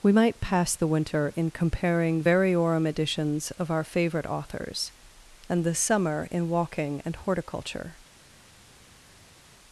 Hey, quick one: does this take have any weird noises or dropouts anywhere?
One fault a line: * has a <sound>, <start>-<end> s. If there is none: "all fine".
all fine